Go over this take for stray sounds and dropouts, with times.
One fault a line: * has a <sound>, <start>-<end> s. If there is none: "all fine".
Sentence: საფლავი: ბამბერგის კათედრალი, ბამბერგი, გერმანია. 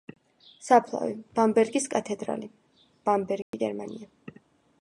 * has a dropout, 3.4-3.5 s